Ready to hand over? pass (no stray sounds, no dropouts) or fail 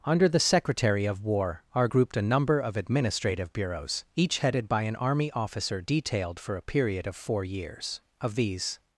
pass